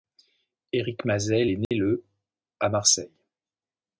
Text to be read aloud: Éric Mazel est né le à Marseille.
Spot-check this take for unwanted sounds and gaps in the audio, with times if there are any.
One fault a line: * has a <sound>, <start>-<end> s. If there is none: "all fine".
* has a dropout, 1.6-1.7 s